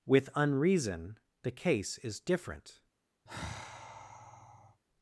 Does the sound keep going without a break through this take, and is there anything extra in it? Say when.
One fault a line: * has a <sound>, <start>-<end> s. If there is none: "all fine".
* has a sigh, 3.3-4.8 s